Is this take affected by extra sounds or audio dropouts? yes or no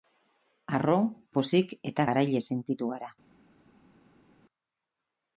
no